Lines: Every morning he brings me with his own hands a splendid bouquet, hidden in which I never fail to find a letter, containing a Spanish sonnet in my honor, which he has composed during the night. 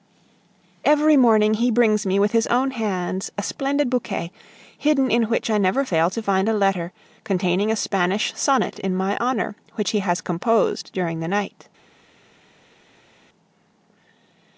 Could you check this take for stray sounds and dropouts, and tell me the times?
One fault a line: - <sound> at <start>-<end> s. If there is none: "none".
none